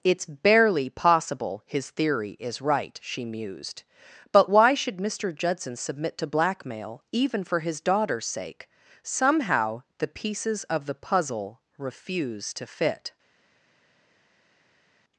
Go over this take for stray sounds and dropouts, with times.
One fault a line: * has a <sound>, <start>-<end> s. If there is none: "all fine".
all fine